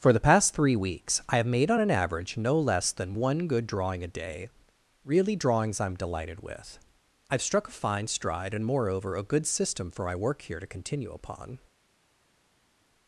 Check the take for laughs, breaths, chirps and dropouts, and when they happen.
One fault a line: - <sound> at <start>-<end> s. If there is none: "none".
none